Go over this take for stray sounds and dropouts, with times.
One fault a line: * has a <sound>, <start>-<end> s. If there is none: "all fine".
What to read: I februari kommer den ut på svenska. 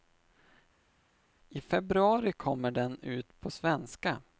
all fine